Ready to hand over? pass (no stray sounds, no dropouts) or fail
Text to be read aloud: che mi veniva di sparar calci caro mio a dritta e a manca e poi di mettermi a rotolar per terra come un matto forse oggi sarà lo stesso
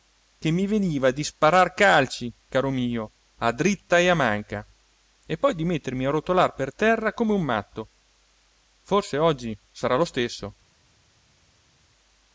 pass